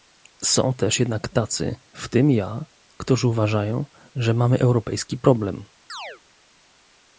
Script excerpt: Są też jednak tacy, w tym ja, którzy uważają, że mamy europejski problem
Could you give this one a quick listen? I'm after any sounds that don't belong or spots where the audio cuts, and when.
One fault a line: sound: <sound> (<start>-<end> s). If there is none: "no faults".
sound: chirp (5.9-6.2 s)